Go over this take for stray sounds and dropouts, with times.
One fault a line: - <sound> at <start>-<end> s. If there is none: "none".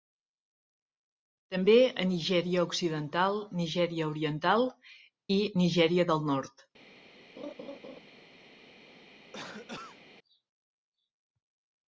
- laugh at 7.4-8.0 s
- cough at 9.3-10.0 s